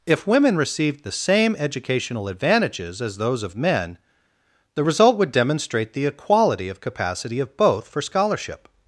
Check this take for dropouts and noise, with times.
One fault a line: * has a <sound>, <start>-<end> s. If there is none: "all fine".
all fine